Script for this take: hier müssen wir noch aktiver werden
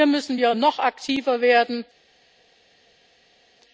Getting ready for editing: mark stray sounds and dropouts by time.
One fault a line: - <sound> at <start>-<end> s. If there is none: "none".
none